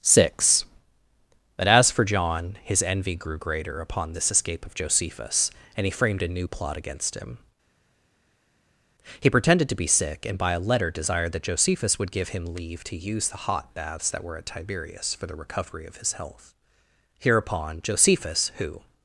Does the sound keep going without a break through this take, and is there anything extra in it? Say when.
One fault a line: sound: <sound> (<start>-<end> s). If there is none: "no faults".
no faults